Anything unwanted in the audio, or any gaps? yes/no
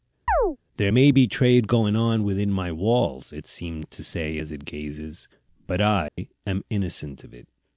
yes